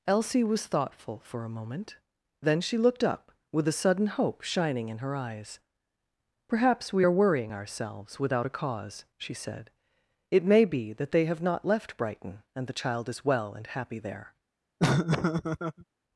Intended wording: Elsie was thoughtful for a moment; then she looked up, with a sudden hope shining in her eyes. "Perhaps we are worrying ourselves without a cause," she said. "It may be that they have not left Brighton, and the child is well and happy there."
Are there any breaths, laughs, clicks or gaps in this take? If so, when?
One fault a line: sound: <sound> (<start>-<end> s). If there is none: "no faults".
sound: laugh (14.8-15.8 s)